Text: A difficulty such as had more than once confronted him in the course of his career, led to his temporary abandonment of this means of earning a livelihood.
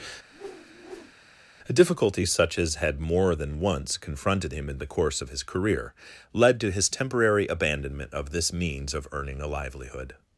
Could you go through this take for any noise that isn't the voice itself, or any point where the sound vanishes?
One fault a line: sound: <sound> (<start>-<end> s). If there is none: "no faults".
sound: whoosh (0.3-1.1 s)